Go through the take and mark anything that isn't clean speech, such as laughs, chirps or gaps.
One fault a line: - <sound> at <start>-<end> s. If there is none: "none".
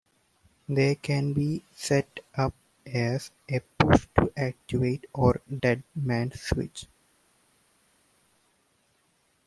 none